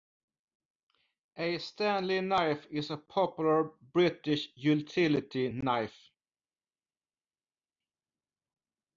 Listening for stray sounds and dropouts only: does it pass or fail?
pass